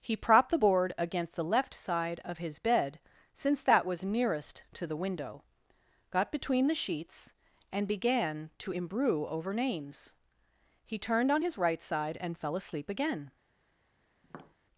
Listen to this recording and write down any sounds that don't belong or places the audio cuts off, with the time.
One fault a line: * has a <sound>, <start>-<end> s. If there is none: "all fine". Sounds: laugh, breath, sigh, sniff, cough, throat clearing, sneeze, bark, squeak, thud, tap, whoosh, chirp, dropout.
* has a tap, 14.2-14.6 s